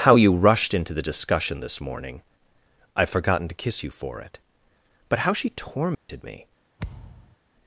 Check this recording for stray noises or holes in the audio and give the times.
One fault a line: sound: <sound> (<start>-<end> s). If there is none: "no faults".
sound: dropout (5.9-6.1 s)
sound: thud (6.8-7.4 s)